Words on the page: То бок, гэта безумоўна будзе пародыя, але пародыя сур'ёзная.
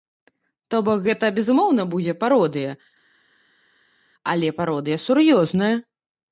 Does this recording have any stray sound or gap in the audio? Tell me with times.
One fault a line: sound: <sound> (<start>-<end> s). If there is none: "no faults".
no faults